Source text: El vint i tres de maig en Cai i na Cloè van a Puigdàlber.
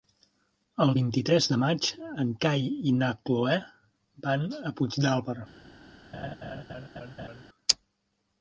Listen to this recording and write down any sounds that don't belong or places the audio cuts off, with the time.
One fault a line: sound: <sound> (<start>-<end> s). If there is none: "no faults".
sound: laugh (6.1-7.4 s)